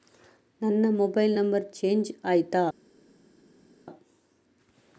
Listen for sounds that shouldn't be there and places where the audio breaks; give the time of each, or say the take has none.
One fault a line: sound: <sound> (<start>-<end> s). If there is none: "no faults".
no faults